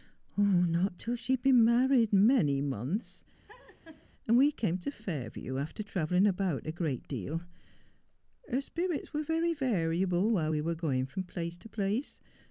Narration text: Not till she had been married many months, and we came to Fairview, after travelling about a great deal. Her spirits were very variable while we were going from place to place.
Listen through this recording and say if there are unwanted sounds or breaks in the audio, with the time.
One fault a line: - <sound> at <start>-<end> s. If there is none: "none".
- laugh at 3.5-4.1 s